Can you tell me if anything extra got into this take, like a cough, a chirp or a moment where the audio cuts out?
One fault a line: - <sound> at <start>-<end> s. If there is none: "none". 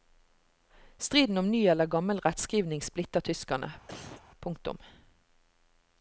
- cough at 3.9-4.2 s